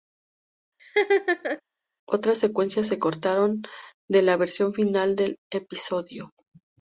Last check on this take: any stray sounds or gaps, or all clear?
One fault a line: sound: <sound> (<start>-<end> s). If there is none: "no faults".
sound: laugh (0.8-1.6 s)